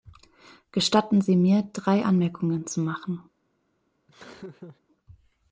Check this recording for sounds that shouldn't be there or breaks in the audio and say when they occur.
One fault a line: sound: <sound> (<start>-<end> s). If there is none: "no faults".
sound: laugh (4.1-4.8 s)